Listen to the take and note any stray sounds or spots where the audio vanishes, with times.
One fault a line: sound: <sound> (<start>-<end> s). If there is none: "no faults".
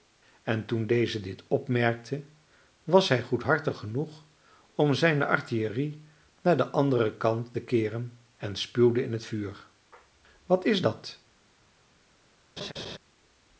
sound: laugh (12.6-13.0 s)